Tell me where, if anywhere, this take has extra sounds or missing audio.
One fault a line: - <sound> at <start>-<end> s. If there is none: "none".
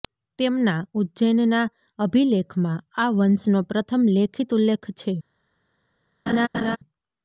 - laugh at 6.3-6.8 s